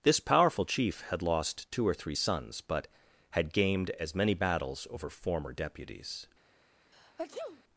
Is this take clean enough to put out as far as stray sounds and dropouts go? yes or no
no